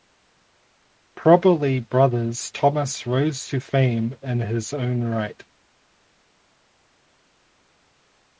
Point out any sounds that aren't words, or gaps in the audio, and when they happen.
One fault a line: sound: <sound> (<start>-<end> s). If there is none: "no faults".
no faults